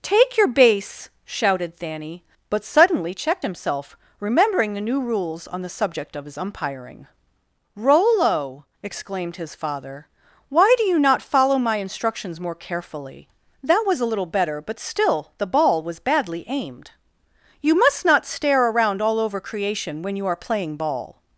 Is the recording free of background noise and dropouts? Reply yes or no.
yes